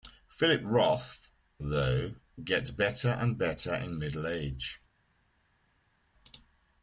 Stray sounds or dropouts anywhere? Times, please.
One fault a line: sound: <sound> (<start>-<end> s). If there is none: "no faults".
no faults